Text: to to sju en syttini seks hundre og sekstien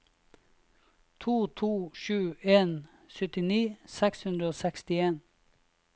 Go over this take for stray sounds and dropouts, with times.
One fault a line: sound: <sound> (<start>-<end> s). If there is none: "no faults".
no faults